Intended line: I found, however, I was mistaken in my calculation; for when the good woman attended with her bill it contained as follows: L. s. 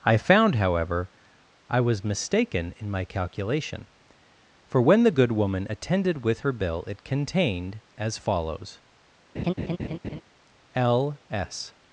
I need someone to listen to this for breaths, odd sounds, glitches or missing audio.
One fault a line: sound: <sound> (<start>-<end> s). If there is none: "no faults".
sound: laugh (9.3-10.2 s)